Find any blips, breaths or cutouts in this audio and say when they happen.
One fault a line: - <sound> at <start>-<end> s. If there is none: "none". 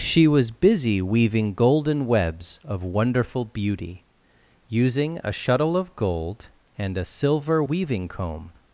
none